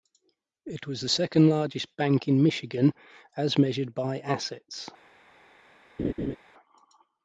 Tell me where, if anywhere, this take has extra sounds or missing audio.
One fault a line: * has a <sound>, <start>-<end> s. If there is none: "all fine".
* has a laugh, 6.0-6.4 s